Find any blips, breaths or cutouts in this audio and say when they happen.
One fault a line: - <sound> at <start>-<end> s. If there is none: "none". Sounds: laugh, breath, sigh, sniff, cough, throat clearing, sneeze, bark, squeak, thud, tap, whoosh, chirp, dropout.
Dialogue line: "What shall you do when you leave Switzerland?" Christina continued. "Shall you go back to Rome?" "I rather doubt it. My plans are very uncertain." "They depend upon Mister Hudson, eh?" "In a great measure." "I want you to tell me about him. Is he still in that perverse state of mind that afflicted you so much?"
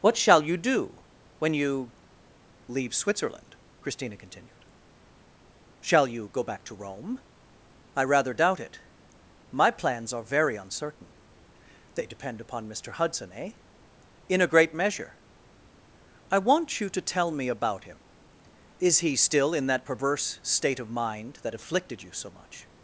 none